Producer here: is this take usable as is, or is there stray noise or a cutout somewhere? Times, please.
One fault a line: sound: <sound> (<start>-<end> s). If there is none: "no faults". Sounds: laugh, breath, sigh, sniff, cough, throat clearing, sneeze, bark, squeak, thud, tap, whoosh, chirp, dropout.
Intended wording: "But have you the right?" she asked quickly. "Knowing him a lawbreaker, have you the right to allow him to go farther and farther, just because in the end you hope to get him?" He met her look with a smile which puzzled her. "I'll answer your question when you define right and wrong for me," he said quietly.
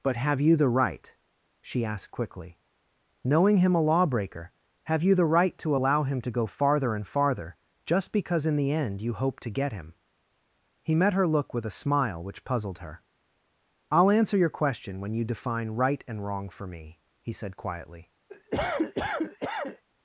sound: cough (18.3-19.8 s)